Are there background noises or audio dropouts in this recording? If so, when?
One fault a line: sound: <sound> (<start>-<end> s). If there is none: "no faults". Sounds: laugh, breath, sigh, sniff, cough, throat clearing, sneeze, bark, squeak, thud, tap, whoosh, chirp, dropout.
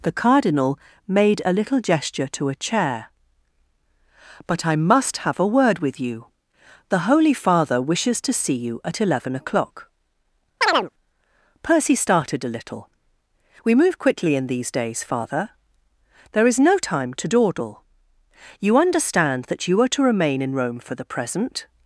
sound: chirp (10.6-10.9 s)